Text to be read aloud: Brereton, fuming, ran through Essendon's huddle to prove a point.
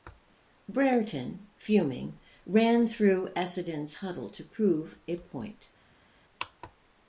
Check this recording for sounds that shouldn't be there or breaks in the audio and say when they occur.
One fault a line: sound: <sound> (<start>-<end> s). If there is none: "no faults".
no faults